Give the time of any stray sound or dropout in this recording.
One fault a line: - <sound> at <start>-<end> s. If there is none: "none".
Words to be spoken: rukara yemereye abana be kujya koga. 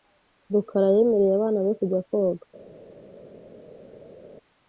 none